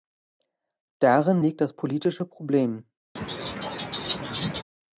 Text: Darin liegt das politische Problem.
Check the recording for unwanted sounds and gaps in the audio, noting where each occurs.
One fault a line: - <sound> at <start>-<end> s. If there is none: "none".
- laugh at 3.2-4.6 s